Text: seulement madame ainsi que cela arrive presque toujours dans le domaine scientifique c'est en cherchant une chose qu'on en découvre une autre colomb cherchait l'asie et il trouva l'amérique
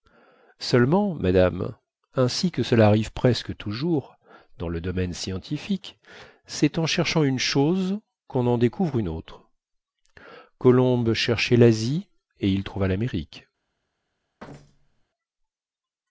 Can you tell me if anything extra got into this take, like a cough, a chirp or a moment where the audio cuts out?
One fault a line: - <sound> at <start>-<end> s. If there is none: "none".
- thud at 14.4-15.0 s